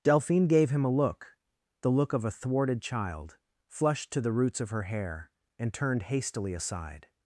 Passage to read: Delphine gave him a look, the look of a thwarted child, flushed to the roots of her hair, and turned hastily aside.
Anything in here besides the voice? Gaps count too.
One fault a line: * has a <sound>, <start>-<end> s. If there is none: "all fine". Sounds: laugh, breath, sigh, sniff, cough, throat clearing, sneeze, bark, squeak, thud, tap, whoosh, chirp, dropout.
all fine